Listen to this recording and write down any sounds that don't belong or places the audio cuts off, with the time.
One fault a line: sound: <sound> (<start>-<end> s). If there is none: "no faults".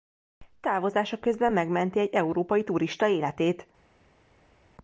no faults